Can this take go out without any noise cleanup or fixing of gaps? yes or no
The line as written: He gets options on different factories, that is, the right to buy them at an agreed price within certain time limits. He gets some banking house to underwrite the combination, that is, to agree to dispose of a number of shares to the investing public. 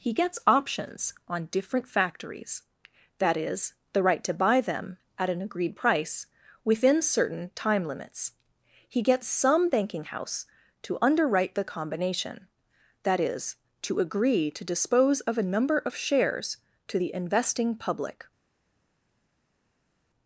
yes